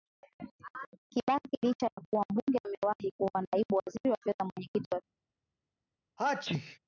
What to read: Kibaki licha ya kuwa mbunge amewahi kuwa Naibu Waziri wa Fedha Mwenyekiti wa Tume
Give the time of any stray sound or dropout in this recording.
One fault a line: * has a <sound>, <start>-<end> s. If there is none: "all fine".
* has a dropout, 1.9-2.0 s
* has a sneeze, 6.2-6.8 s